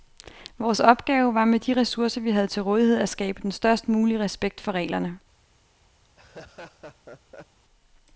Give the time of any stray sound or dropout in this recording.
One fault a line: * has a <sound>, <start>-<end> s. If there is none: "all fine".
* has a laugh, 6.0-7.6 s